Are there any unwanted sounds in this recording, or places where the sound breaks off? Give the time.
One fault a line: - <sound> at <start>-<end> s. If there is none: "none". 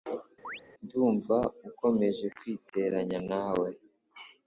- chirp at 0.4-0.6 s